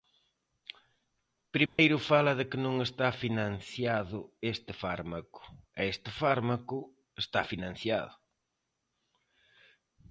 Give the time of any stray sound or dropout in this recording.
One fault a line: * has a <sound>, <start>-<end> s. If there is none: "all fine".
* has a dropout, 1.7-1.8 s